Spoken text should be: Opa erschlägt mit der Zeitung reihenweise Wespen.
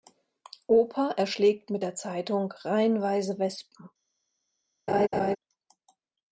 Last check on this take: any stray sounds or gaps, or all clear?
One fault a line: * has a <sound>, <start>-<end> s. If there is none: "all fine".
* has a laugh, 4.9-5.4 s